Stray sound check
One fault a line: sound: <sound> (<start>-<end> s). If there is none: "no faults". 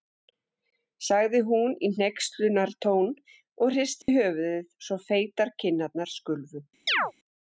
sound: dropout (4.0-4.1 s)
sound: chirp (6.9-7.1 s)